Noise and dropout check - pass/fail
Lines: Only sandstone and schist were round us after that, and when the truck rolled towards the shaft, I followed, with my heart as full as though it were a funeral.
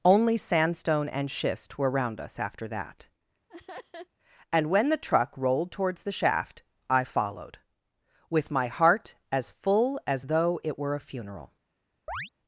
fail